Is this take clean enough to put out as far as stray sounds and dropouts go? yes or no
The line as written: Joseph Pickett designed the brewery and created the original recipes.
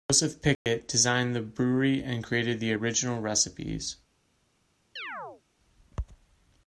no